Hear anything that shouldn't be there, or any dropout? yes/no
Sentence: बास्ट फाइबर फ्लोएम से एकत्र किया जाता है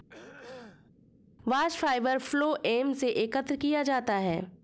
yes